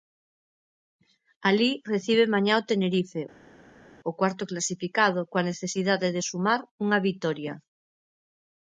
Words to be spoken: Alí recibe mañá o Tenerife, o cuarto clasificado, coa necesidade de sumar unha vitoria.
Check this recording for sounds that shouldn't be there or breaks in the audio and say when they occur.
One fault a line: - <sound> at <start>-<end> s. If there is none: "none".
none